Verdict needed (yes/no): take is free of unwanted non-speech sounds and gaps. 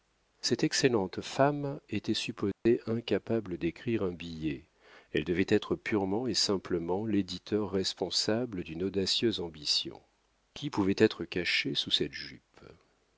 no